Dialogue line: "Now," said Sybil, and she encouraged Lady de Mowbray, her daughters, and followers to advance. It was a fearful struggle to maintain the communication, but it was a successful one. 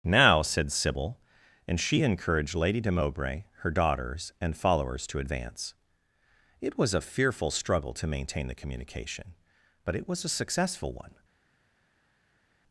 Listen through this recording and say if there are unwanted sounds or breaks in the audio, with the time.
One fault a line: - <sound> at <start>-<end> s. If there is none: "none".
none